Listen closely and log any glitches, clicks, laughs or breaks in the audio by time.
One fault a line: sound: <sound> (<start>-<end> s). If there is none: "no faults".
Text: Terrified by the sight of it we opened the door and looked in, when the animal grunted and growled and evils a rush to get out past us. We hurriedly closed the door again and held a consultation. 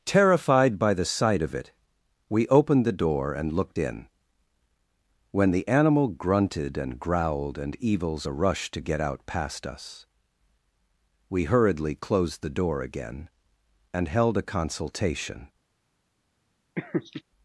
sound: laugh (16.8-17.2 s)